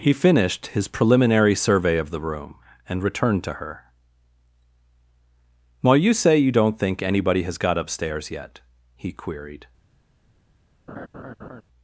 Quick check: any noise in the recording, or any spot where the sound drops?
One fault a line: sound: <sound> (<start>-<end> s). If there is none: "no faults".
sound: laugh (10.9-11.6 s)